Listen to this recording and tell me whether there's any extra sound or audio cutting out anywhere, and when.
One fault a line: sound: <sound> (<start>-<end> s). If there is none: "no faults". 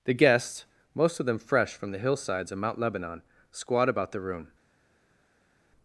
no faults